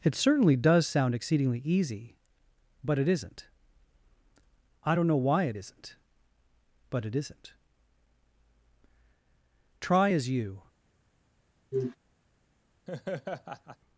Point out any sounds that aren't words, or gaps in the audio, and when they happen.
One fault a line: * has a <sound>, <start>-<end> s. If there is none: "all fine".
* has a sniff, 11.7-12.0 s
* has a laugh, 12.9-13.8 s